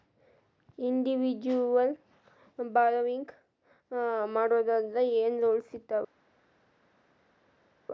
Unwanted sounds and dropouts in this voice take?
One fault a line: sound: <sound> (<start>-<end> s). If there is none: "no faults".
no faults